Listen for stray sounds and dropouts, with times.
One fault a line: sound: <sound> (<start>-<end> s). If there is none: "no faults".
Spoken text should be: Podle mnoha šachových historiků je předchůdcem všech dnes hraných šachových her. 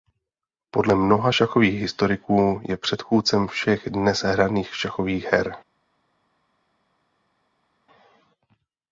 no faults